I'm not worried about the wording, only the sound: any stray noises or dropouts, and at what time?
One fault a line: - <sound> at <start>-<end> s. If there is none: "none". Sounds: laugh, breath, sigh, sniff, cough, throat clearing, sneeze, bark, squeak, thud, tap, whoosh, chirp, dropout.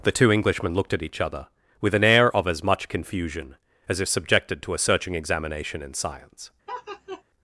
- laugh at 6.7-7.2 s